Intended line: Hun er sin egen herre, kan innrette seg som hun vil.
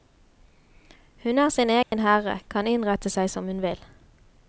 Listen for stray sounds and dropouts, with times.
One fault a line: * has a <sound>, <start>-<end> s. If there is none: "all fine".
* has a dropout, 1.8-1.9 s